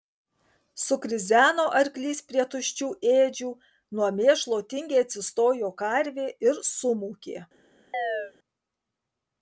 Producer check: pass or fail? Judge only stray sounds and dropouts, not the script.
fail